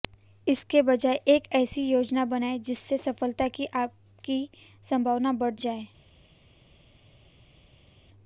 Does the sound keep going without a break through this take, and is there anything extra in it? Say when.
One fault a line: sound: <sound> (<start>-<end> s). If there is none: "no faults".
no faults